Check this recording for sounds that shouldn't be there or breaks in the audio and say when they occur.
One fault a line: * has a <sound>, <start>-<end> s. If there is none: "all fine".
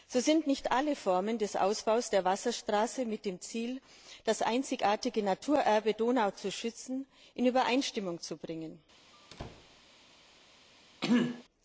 * has a squeak, 9.1-9.8 s
* has a throat clearing, 11.0-11.4 s